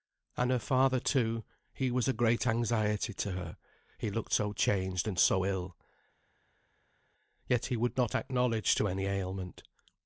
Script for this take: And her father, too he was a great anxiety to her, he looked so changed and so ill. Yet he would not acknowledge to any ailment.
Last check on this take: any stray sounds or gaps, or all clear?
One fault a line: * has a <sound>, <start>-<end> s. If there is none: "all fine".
all fine